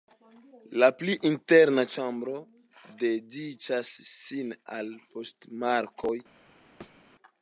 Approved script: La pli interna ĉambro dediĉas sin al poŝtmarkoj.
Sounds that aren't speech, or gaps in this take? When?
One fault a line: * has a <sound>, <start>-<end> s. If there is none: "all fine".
* has a thud, 6.8-7.0 s